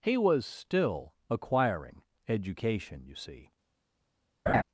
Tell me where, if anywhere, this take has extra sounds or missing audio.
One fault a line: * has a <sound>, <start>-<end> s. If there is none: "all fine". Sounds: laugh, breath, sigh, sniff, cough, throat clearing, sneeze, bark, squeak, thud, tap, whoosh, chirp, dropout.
* has a laugh, 4.5-4.6 s